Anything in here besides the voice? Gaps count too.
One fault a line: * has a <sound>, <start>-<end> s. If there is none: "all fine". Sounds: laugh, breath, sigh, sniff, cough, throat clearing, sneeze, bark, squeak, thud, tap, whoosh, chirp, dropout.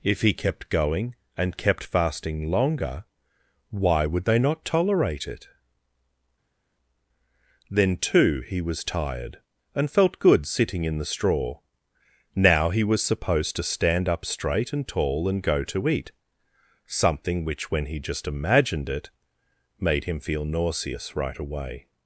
all fine